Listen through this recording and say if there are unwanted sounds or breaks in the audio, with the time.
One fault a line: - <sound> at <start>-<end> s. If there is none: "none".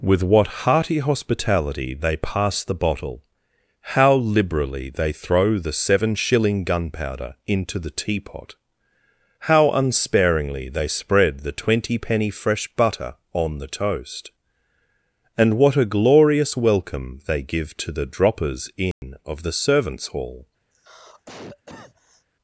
- dropout at 18.9-19.0 s
- cough at 20.7-22.3 s